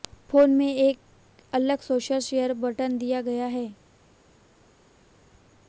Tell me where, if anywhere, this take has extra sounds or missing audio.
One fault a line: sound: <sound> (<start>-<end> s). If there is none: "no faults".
no faults